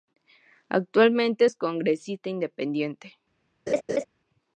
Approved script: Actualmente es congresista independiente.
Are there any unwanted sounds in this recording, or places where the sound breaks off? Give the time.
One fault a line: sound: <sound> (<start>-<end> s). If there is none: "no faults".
sound: laugh (3.7-4.1 s)